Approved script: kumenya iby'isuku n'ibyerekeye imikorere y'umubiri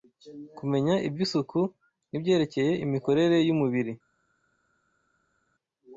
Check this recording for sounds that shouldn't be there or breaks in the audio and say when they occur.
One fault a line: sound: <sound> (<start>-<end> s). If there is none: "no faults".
no faults